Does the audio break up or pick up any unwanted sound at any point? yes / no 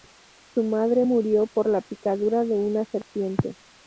yes